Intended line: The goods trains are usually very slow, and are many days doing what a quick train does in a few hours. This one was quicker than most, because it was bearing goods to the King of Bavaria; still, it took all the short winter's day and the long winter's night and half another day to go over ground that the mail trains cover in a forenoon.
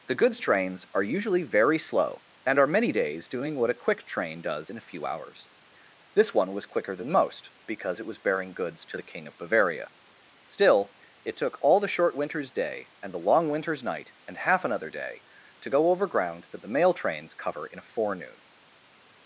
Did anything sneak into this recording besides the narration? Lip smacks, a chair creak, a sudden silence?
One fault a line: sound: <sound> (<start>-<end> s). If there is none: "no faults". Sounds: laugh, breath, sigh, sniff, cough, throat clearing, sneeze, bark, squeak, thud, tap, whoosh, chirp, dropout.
no faults